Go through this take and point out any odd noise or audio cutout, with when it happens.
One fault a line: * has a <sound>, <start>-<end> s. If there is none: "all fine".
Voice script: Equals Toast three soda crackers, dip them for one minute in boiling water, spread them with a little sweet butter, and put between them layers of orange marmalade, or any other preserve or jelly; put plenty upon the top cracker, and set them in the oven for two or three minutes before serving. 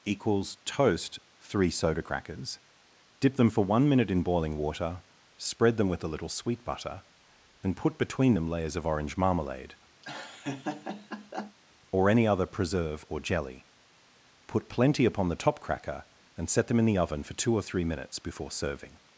* has a laugh, 10.0-11.6 s